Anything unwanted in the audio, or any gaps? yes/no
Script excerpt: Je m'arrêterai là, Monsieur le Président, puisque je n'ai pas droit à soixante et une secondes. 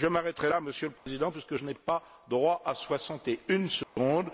yes